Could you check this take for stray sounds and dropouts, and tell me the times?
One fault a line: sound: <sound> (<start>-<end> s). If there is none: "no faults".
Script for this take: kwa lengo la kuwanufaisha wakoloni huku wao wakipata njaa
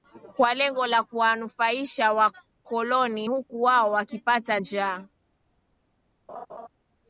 sound: laugh (6.3-6.7 s)